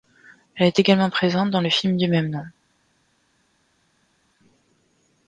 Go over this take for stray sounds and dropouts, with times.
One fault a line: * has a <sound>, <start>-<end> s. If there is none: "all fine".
all fine